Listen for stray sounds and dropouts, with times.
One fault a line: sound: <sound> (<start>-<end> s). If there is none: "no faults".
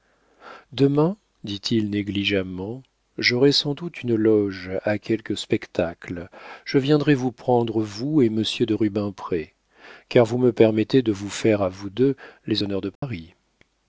sound: dropout (13.0-13.0 s)